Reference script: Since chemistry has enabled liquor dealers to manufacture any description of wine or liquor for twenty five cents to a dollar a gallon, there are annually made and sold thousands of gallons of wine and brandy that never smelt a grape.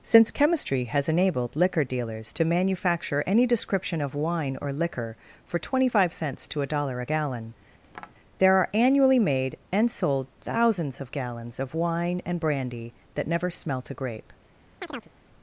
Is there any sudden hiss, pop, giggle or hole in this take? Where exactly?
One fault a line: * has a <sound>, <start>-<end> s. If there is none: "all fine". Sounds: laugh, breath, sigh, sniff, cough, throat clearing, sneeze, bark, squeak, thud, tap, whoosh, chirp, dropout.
* has a tap, 7.8-8.1 s
* has a chirp, 14.8-15.1 s